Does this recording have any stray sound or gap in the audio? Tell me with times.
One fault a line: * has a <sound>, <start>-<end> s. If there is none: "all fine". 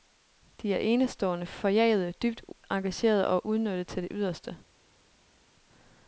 all fine